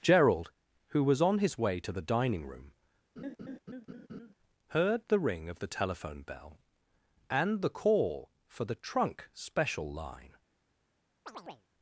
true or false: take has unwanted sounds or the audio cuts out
true